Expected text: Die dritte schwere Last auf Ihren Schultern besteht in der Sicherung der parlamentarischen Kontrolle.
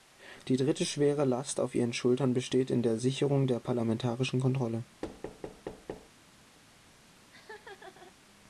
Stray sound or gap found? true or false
true